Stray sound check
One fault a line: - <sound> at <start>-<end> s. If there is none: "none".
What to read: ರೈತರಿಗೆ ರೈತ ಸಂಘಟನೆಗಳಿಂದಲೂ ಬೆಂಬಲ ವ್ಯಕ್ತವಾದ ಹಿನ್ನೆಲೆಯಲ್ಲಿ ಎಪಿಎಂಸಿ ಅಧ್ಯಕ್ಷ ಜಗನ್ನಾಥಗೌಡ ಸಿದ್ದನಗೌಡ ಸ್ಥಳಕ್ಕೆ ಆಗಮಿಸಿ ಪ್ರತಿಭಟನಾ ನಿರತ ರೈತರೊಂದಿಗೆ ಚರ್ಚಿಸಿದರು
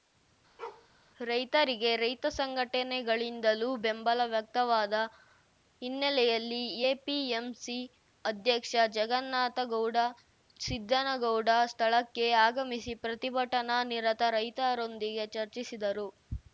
- bark at 0.6-0.9 s